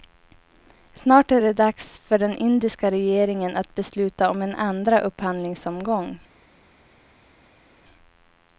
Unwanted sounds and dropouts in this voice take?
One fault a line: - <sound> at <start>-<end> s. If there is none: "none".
none